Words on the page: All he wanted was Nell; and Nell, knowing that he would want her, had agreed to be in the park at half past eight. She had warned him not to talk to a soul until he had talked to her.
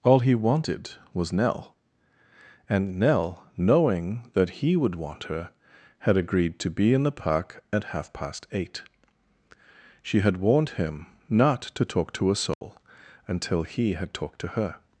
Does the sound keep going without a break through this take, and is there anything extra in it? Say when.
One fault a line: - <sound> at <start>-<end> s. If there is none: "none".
- dropout at 12.5-12.6 s